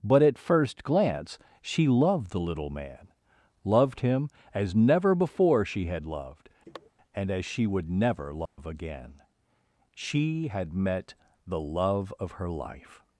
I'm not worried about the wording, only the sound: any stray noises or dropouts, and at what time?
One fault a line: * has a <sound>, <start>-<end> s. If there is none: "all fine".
* has a sniff, 6.7-6.9 s
* has a dropout, 8.5-8.6 s